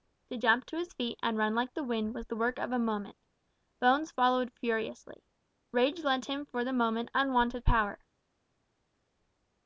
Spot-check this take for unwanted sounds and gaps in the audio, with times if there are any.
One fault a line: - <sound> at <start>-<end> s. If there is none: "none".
none